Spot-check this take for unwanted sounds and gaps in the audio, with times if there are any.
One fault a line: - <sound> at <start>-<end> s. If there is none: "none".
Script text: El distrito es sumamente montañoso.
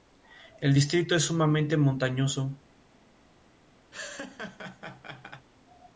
- laugh at 3.9-5.5 s